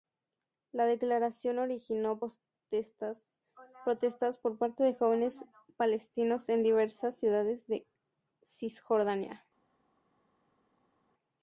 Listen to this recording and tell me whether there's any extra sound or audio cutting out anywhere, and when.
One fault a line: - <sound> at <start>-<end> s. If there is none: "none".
none